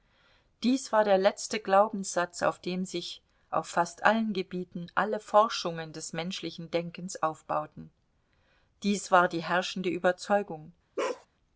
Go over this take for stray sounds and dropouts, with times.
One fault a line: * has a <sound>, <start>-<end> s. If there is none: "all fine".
* has a bark, 11.0-11.3 s